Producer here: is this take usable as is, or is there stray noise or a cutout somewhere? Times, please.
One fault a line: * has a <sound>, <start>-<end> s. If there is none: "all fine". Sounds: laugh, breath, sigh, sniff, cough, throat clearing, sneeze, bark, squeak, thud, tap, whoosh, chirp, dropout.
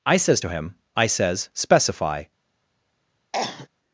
* has a cough, 3.3-3.7 s